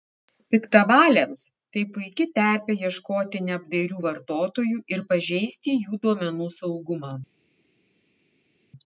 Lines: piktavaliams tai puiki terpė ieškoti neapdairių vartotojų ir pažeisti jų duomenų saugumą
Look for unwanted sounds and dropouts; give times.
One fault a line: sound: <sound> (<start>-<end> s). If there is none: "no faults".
no faults